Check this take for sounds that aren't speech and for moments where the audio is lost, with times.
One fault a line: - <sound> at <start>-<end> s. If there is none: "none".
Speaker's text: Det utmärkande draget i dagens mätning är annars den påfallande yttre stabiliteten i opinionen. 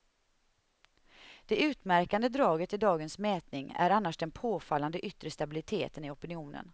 none